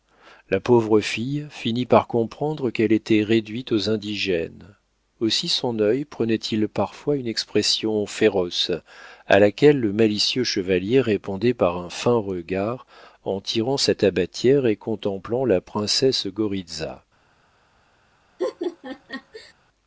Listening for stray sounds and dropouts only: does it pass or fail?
fail